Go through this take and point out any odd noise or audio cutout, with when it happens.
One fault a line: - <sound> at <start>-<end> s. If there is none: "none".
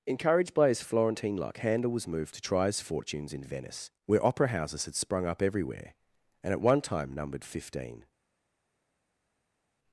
none